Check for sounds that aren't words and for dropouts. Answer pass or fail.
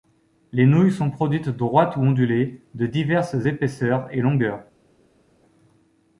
pass